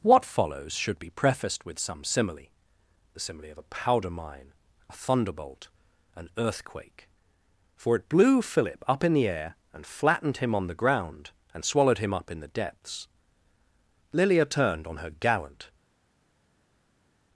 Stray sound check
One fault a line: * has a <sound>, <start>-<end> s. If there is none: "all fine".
all fine